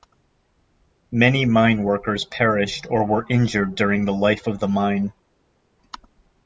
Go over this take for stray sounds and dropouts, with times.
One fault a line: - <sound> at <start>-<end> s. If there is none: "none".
none